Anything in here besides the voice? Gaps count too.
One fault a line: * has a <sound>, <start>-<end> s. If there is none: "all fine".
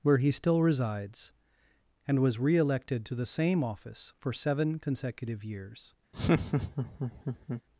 * has a laugh, 6.1-7.6 s